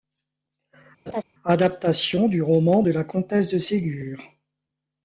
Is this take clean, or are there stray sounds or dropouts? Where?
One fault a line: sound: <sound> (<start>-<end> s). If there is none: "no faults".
sound: laugh (1.1-1.2 s)